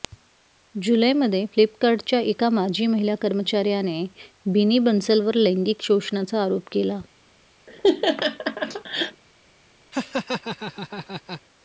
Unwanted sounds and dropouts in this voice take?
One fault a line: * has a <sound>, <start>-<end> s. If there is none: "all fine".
* has a laugh, 7.7-9.2 s
* has a laugh, 9.9-11.4 s